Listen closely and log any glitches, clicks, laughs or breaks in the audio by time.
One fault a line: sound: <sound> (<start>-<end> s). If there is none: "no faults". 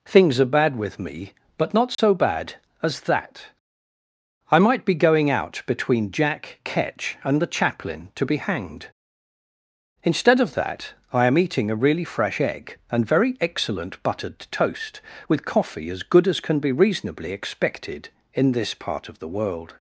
sound: dropout (1.9-2.0 s)